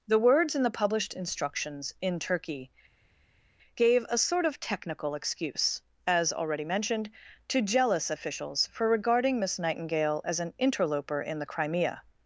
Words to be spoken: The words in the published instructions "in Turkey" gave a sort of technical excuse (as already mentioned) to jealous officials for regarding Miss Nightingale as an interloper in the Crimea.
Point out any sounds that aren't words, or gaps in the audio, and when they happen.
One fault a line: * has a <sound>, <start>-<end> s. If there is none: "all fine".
all fine